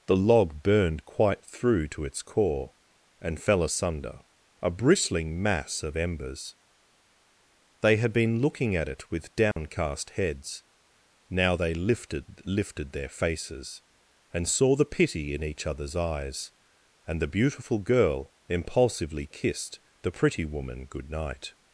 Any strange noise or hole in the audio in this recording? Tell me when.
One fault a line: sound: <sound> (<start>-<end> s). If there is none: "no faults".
sound: dropout (9.5-9.6 s)